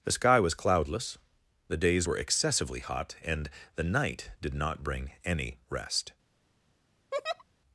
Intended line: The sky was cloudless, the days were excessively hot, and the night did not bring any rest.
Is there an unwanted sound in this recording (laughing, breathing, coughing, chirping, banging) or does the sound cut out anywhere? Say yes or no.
yes